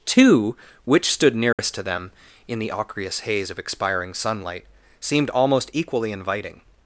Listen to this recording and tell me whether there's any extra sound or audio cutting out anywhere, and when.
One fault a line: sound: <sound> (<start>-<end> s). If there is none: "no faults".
sound: dropout (1.5-1.6 s)